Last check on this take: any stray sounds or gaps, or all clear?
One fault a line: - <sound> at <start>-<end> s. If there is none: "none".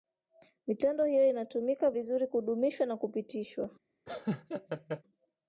- laugh at 4.1-5.0 s